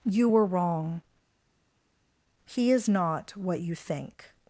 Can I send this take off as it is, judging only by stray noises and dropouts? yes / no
yes